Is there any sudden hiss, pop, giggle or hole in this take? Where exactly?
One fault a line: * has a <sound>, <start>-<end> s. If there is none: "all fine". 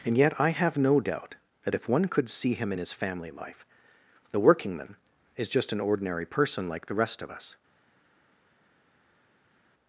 all fine